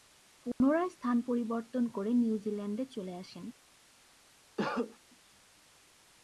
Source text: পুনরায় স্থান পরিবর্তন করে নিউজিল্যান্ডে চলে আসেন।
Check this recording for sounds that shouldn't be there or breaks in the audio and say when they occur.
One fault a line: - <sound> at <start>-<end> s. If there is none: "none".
- dropout at 0.5-0.6 s
- cough at 4.6-5.0 s